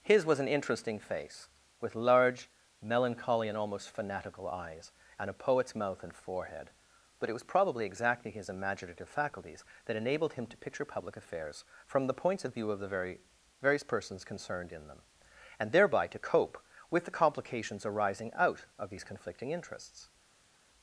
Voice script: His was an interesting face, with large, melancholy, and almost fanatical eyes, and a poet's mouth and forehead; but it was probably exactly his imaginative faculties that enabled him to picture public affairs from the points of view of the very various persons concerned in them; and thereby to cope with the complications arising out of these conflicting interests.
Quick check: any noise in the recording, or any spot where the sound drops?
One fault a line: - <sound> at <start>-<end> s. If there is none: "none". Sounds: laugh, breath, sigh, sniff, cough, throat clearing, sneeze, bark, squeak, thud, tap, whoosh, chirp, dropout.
none